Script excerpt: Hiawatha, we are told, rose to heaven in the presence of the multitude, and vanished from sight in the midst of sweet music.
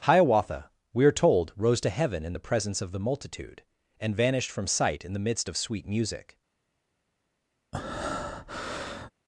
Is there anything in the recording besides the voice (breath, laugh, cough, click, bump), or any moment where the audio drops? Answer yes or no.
yes